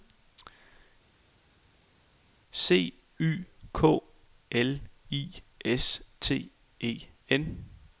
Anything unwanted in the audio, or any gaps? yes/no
no